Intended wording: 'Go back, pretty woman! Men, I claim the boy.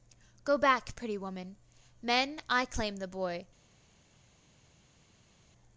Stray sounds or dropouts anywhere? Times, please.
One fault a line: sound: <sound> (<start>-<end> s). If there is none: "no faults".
no faults